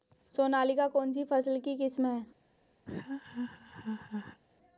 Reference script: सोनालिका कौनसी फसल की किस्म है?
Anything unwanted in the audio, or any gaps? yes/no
yes